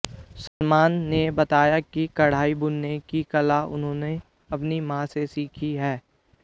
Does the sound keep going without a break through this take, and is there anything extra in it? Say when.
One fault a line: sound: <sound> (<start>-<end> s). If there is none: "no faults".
sound: dropout (0.5-0.6 s)